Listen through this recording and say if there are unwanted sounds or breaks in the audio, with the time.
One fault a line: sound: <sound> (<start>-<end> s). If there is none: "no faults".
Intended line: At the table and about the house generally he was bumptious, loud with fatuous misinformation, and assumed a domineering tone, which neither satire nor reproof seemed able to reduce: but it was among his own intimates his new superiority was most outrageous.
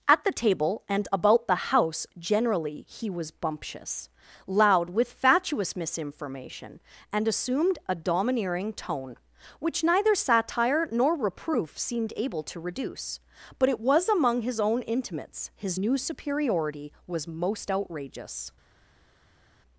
no faults